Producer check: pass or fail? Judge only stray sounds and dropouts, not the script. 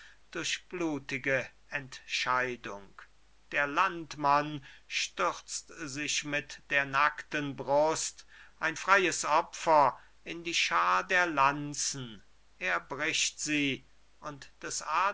pass